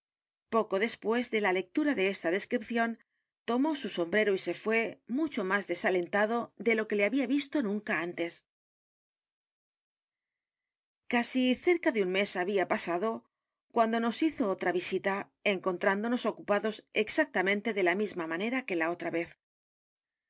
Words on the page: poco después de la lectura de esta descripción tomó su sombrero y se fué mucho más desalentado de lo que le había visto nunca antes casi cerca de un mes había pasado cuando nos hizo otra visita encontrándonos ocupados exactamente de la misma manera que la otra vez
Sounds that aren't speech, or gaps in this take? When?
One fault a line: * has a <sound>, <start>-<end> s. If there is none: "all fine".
all fine